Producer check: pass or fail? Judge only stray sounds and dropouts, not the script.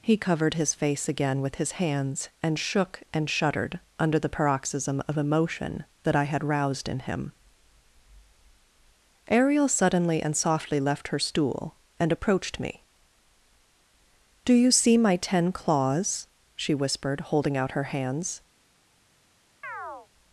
fail